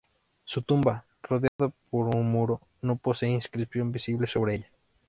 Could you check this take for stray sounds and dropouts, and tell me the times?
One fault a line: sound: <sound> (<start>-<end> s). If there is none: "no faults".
sound: dropout (1.5-1.6 s)